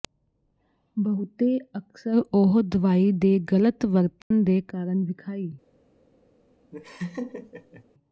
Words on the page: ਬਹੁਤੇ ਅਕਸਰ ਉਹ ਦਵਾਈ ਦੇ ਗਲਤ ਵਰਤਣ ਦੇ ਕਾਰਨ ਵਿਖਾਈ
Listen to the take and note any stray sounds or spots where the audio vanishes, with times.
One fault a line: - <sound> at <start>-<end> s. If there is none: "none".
- dropout at 4.2-4.3 s
- laugh at 6.7-7.8 s